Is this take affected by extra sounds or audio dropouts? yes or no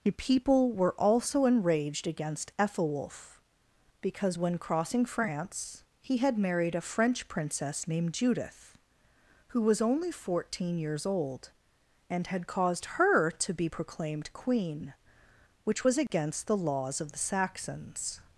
yes